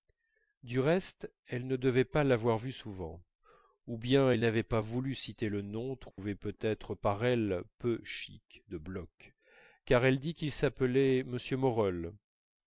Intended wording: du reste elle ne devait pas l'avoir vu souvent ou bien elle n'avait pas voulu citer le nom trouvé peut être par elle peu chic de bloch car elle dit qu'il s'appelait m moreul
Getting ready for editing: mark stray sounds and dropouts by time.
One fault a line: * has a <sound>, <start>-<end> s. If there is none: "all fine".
* has a dropout, 6.1-6.2 s